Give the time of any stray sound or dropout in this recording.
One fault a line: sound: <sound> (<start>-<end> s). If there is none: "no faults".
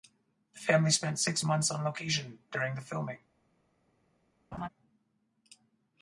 sound: laugh (4.5-4.7 s)